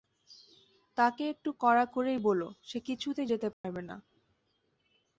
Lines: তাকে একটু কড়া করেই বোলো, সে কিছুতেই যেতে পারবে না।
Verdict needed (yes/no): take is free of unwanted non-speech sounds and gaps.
no